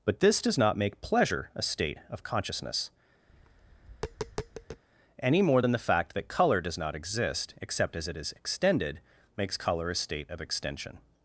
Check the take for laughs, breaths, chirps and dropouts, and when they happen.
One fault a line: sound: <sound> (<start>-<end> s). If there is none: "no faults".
sound: tap (3.3-4.8 s)